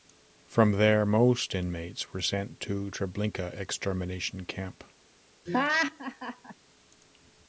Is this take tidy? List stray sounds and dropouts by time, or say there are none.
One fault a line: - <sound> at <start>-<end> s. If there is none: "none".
- laugh at 5.5-6.5 s